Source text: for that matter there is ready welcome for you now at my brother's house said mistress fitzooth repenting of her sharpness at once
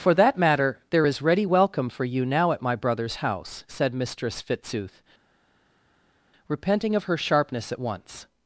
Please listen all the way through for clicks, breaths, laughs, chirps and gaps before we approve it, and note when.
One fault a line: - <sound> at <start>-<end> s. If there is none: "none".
none